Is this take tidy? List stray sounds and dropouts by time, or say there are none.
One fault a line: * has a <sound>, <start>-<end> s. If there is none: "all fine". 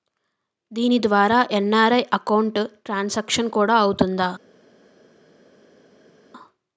all fine